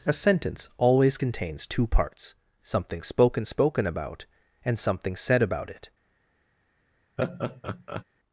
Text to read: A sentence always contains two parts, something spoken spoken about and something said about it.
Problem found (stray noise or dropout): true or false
true